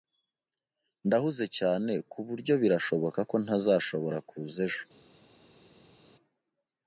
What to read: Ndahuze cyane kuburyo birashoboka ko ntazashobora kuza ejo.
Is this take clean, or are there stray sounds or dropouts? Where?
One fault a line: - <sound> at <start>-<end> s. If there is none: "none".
none